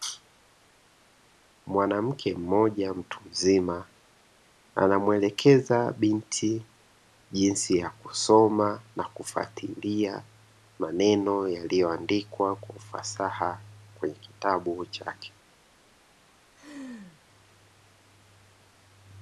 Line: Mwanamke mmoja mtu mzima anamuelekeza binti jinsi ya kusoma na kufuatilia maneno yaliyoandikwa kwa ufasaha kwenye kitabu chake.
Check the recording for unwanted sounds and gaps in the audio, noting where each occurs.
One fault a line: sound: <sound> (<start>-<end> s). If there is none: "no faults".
sound: laugh (16.5-17.2 s)